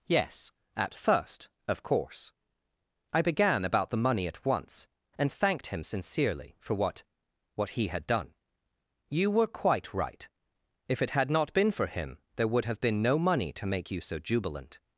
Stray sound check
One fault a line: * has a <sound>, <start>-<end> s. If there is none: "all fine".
all fine